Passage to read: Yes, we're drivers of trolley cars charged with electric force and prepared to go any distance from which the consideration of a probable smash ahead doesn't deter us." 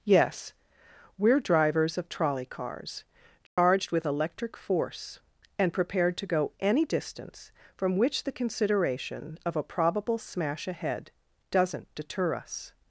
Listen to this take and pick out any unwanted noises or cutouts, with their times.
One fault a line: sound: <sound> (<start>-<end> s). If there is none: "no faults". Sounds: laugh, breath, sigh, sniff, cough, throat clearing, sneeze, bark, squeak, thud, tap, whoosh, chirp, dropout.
sound: dropout (3.5-3.6 s)